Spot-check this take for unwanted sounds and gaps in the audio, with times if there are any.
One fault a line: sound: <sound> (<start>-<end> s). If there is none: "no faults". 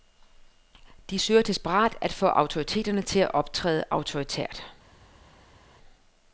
no faults